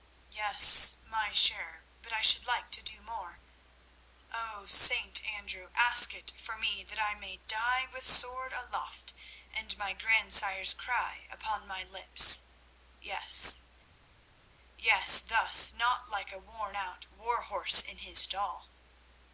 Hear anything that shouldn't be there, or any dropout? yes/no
no